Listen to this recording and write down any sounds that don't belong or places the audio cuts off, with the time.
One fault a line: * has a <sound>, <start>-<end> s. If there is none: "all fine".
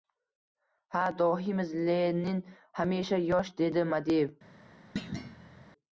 * has a thud, 5.0-5.7 s